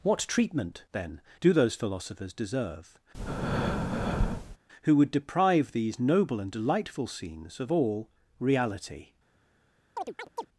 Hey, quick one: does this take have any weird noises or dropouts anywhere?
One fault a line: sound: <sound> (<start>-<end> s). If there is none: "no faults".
sound: breath (3.1-4.6 s)
sound: chirp (10.0-10.5 s)